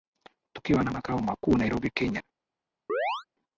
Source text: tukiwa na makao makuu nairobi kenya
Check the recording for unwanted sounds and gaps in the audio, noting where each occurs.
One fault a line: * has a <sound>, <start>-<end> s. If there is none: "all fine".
* has a chirp, 2.9-3.2 s